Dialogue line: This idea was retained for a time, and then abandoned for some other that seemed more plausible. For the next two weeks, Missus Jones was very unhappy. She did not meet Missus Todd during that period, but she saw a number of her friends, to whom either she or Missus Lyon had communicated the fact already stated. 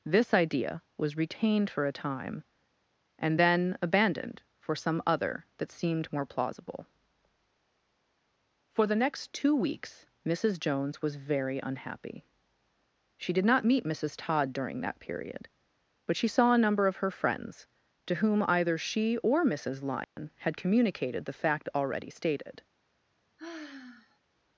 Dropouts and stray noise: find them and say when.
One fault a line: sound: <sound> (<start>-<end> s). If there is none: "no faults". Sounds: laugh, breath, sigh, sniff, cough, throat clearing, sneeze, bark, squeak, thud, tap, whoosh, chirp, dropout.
sound: dropout (20.0-20.2 s)
sound: sigh (23.4-24.2 s)